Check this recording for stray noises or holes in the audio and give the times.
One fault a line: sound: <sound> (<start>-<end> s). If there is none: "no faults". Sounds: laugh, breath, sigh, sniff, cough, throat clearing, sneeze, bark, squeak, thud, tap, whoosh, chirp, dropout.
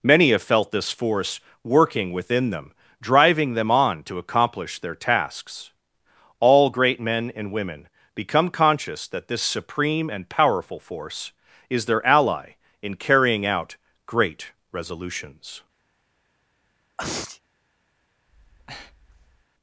sound: sneeze (17.0-17.4 s)
sound: breath (18.3-19.5 s)